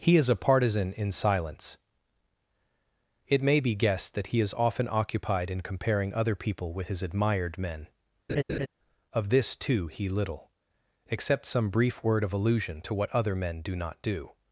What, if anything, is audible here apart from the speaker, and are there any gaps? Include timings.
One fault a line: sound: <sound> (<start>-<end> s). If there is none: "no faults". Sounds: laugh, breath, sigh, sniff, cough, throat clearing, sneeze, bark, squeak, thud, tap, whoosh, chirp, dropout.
sound: laugh (8.3-8.7 s)